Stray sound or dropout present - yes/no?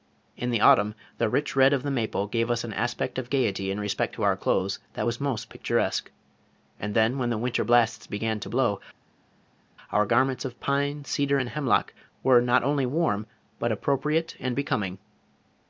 no